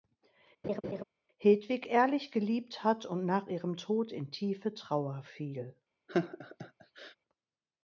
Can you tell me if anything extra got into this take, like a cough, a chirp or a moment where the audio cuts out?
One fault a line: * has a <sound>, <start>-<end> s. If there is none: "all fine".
* has a laugh, 0.6-1.0 s
* has a laugh, 6.1-7.2 s